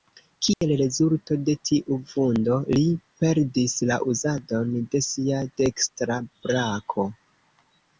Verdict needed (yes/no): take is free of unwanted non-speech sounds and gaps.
no